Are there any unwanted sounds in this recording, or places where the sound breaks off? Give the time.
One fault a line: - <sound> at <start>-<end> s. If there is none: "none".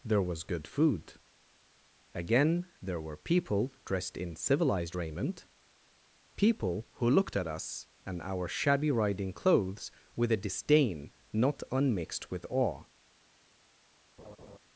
- laugh at 14.2-14.6 s